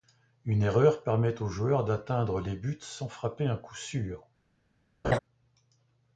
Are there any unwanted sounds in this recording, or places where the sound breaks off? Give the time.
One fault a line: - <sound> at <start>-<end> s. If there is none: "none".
- laugh at 5.0-5.2 s